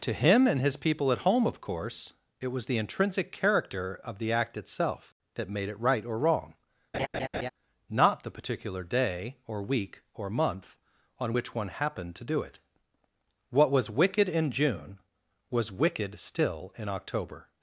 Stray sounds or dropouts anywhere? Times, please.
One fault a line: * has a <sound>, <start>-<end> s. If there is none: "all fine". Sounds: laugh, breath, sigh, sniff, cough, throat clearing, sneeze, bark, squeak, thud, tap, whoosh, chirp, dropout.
* has a laugh, 6.9-7.5 s